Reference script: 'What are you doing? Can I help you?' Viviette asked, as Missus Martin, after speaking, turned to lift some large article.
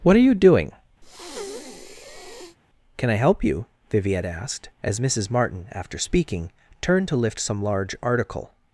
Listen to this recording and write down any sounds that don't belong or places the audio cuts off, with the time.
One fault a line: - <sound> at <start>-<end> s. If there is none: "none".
- breath at 1.0-2.6 s